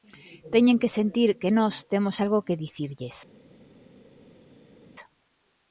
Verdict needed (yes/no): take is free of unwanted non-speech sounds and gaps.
yes